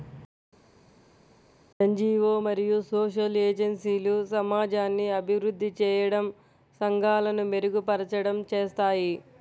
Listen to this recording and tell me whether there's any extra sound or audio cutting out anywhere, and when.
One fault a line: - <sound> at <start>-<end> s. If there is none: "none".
none